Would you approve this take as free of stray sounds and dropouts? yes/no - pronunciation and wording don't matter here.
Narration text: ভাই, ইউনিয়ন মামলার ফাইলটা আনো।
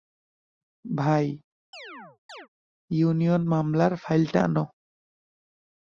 no